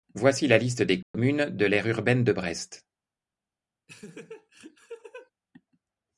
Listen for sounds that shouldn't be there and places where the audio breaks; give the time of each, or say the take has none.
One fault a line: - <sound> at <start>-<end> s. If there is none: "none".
- dropout at 1.0-1.1 s
- laugh at 3.9-5.3 s